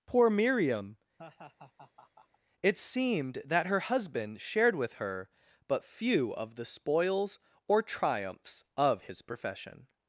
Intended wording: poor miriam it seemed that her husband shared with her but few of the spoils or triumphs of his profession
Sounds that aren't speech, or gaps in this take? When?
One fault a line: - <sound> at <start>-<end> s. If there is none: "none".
- laugh at 1.2-2.4 s